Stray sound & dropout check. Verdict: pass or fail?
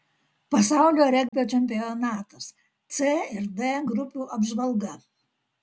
fail